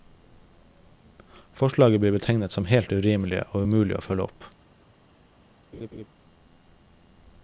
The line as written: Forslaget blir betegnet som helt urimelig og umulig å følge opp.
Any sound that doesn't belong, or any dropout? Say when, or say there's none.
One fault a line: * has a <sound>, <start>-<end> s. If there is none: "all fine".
* has a laugh, 5.7-6.1 s